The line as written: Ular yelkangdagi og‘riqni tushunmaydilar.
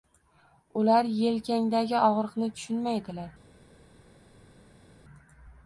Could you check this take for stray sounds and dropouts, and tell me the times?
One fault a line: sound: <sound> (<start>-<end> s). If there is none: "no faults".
no faults